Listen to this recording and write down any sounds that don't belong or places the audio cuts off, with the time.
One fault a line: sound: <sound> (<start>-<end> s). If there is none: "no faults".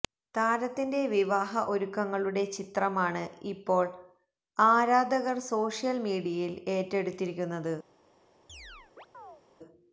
sound: chirp (8.5-9.4 s)